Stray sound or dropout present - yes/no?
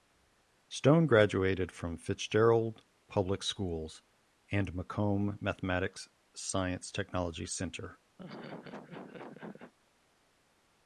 yes